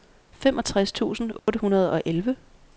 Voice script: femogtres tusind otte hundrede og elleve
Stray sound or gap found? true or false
true